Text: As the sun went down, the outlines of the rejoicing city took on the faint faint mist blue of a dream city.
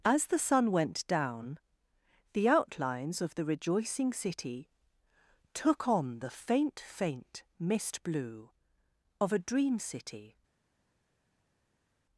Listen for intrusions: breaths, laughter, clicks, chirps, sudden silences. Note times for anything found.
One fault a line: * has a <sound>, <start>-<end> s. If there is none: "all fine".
all fine